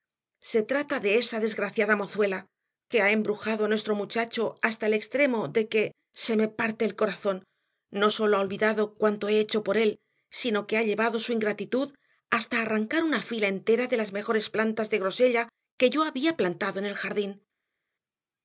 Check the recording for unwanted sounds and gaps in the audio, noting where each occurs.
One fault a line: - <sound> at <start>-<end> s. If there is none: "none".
none